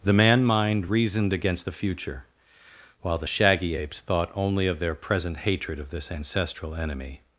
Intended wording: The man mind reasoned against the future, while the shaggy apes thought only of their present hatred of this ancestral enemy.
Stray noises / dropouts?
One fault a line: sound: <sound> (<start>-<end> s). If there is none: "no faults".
no faults